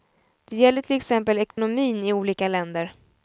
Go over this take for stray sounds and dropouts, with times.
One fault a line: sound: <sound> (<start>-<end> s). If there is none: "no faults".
sound: dropout (1.5-1.6 s)